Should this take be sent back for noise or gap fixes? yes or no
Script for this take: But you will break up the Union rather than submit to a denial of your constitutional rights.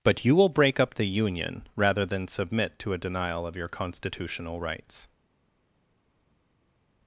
no